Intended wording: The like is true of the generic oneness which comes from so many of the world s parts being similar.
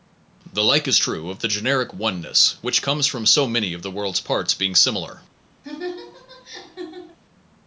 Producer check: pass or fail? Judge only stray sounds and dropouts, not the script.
fail